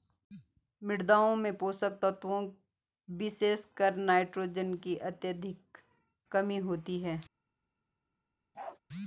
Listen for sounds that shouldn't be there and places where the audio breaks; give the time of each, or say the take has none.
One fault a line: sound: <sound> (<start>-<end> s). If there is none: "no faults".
sound: bark (8.5-8.8 s)